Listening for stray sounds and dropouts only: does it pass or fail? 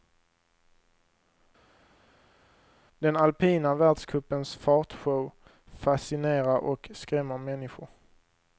pass